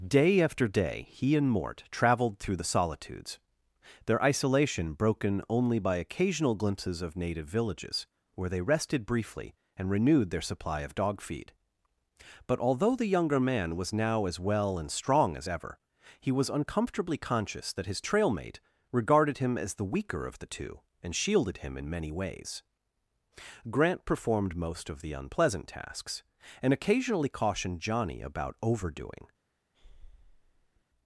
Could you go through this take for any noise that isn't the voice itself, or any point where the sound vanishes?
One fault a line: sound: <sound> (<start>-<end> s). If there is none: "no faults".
sound: breath (29.7-30.8 s)